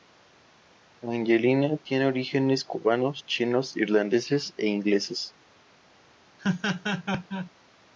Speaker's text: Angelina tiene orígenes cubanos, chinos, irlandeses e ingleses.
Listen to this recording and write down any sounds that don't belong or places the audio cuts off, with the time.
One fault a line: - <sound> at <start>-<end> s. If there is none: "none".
- laugh at 6.4-7.5 s